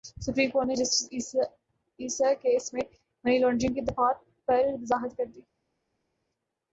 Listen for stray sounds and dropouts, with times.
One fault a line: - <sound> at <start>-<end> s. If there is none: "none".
none